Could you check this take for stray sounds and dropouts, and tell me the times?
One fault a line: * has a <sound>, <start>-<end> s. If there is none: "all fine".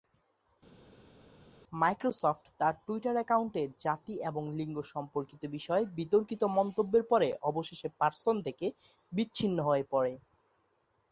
all fine